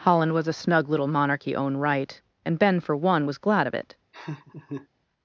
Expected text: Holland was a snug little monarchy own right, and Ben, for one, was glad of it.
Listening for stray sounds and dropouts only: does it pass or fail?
fail